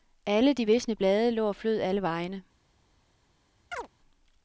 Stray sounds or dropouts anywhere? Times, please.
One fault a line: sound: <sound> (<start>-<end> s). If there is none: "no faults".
sound: chirp (3.7-3.9 s)